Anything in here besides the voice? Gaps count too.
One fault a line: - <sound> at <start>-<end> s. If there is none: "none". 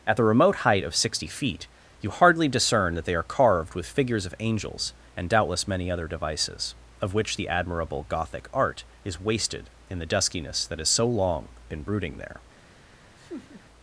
- laugh at 13.2-13.6 s